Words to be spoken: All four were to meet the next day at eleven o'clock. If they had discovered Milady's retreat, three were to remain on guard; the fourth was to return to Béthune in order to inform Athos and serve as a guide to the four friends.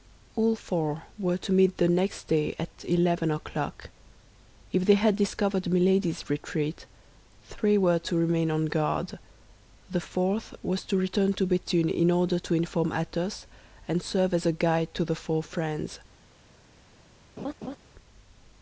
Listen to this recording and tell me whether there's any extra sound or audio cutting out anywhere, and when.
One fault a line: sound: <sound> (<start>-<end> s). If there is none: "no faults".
sound: laugh (17.4-17.8 s)